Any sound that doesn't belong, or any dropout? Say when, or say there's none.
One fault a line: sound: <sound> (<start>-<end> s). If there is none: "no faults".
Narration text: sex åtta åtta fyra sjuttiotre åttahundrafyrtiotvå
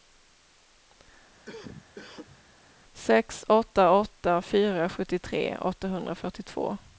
sound: cough (1.5-2.4 s)